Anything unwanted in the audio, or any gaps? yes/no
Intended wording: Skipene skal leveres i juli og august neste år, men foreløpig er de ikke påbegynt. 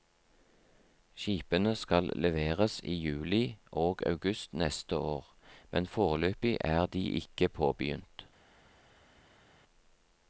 no